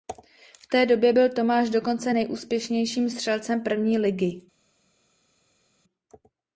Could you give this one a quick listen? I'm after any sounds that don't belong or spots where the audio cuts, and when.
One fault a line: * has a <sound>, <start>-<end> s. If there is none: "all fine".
all fine